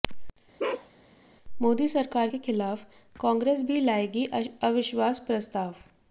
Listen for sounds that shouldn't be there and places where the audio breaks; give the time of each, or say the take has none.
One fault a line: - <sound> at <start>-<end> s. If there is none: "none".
- bark at 0.6-0.9 s